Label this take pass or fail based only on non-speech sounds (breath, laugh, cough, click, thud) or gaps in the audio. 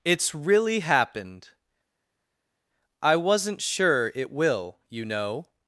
pass